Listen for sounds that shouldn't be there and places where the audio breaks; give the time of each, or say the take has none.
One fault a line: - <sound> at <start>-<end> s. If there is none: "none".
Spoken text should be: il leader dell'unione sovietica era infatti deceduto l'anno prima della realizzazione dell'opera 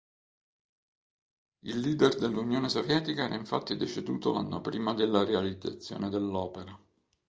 none